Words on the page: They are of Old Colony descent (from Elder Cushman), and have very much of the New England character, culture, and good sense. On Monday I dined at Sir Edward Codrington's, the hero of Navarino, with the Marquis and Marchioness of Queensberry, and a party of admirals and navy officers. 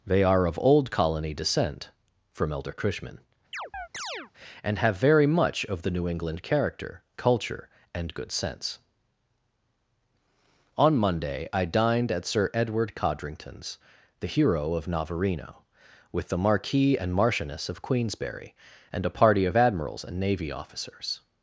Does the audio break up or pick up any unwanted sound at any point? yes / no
yes